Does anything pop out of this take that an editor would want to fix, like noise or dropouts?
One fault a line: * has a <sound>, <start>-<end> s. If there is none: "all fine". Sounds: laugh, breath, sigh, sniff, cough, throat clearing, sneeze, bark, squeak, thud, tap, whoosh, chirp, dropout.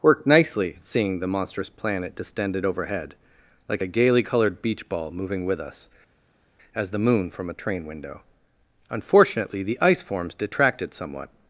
all fine